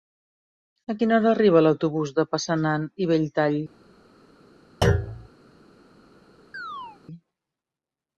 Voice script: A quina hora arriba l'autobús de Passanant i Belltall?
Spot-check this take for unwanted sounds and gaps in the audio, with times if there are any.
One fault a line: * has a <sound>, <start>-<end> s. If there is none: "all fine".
* has a thud, 4.8-5.3 s
* has a chirp, 6.5-7.0 s